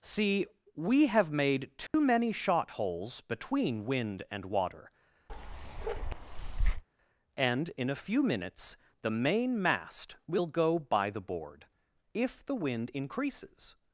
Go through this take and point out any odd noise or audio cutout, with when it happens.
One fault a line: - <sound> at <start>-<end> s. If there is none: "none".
- dropout at 1.9-1.9 s
- bark at 5.3-6.8 s